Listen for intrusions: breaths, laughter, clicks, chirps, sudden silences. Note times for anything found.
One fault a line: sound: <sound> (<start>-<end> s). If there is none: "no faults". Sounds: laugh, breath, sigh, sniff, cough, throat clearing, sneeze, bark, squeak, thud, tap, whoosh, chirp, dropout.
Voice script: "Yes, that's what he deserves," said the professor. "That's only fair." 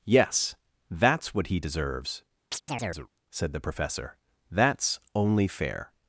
sound: chirp (2.5-3.1 s)